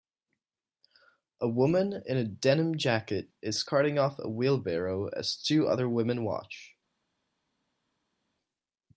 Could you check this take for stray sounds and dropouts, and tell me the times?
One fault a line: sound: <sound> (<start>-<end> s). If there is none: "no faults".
no faults